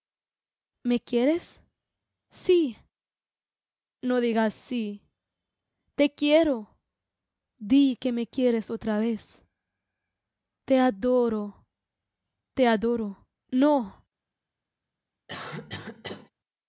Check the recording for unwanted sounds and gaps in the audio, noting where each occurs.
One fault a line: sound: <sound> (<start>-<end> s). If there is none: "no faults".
sound: cough (15.3-16.3 s)